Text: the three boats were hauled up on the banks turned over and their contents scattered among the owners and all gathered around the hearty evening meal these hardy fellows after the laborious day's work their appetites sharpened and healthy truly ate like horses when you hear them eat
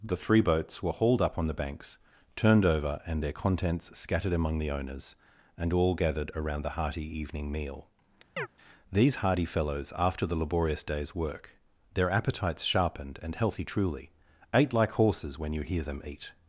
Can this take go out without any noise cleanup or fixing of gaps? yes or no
no